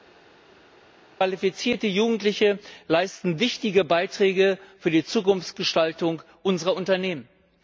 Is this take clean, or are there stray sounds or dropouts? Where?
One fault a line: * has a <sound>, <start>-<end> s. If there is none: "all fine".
all fine